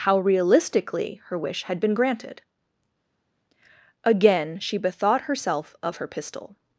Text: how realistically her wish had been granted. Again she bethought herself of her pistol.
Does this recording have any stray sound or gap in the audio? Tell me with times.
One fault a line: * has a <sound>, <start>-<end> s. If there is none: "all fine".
all fine